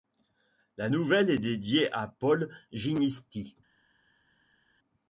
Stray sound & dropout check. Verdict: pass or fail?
pass